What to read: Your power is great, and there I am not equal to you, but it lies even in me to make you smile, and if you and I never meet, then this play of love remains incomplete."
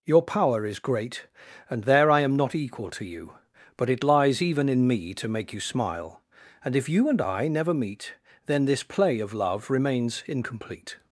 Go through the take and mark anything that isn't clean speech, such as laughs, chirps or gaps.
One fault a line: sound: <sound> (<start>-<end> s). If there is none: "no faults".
no faults